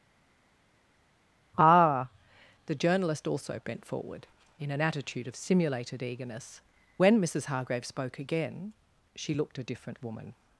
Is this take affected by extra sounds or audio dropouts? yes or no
no